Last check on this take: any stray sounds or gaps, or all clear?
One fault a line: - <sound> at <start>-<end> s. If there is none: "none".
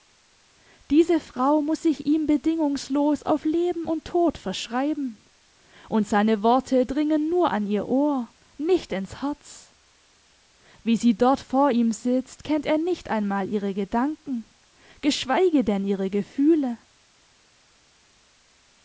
none